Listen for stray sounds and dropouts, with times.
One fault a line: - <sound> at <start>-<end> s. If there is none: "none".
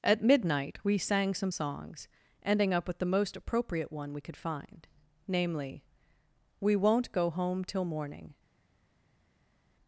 none